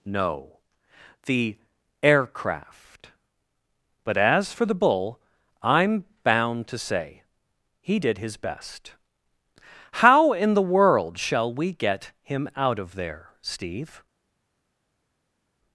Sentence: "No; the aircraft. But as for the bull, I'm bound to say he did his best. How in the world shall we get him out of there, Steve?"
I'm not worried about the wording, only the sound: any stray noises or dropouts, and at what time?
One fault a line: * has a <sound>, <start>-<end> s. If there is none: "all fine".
all fine